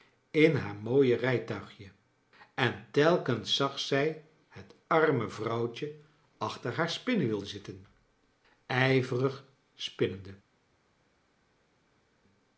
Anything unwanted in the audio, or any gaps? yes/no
no